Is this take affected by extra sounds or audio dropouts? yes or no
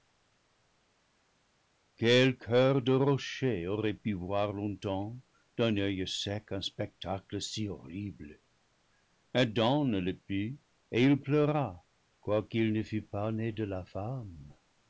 no